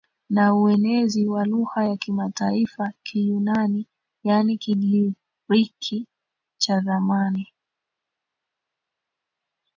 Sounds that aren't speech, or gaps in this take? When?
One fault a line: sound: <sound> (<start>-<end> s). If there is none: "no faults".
no faults